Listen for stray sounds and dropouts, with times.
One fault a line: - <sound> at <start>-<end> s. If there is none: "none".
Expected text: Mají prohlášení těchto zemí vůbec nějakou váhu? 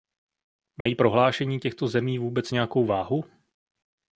- dropout at 0.8-0.9 s